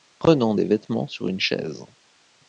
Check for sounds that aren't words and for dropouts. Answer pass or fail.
pass